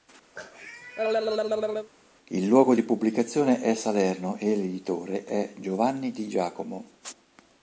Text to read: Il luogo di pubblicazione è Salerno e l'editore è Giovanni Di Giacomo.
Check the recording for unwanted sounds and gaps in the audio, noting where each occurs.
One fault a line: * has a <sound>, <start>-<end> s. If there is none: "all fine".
* has a cough, 0.4-1.9 s